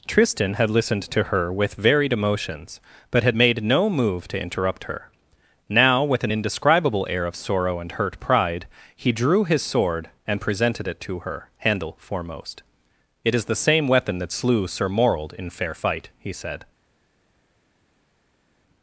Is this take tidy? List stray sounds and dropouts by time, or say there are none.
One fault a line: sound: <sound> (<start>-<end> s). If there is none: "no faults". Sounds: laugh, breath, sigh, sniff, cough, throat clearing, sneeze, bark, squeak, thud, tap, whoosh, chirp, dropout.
no faults